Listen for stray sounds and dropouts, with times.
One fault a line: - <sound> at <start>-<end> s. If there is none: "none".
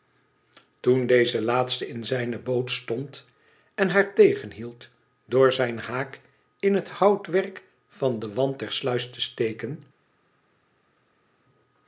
none